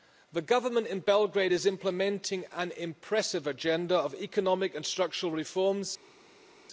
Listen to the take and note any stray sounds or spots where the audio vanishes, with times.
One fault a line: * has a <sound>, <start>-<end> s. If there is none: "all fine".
all fine